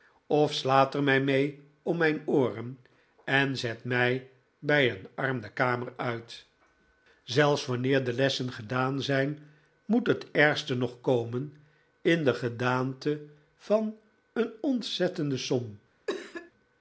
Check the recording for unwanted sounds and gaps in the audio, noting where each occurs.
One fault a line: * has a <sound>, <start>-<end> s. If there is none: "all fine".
* has a cough, 16.1-16.5 s